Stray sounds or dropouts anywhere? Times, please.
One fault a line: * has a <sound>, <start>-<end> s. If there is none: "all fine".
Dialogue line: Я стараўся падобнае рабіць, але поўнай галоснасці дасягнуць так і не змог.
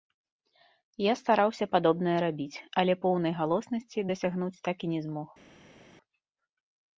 all fine